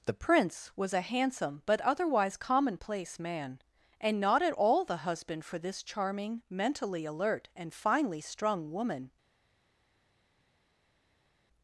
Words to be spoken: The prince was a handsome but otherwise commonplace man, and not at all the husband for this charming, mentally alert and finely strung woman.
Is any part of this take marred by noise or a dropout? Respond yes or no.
no